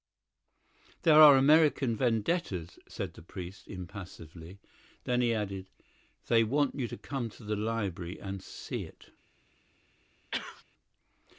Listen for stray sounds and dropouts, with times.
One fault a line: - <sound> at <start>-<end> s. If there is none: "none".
- sneeze at 10.3-10.6 s